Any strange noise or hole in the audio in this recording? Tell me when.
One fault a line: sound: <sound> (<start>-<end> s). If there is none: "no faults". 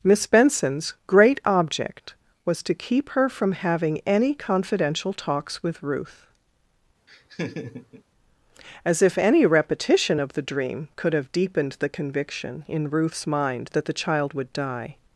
sound: laugh (7.1-8.0 s)